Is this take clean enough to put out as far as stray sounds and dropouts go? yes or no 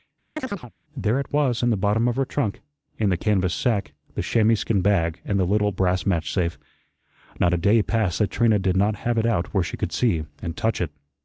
no